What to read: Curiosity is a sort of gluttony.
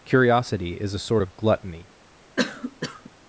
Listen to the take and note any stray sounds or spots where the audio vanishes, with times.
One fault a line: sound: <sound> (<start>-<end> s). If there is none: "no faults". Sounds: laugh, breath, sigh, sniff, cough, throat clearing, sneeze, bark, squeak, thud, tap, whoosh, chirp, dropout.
sound: cough (2.4-3.1 s)